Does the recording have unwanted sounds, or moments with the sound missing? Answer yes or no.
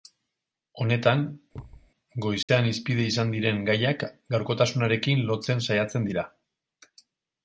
yes